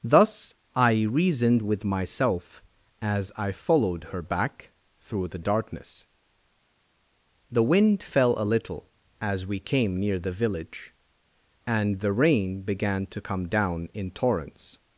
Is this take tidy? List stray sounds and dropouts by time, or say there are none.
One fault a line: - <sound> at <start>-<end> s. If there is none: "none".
none